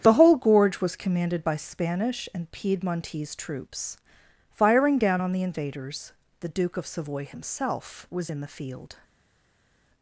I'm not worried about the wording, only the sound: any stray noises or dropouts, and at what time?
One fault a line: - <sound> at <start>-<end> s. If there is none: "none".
none